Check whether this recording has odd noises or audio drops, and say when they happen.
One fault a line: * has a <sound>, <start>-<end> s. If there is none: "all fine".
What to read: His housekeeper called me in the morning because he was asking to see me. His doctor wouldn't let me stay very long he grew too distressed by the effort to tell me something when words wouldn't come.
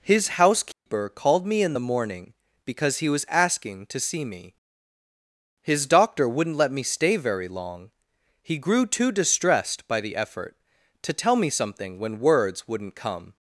* has a dropout, 0.7-0.9 s